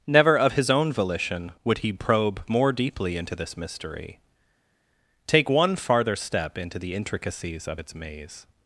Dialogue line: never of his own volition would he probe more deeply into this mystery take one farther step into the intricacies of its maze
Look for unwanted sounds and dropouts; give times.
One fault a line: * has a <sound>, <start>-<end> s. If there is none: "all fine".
all fine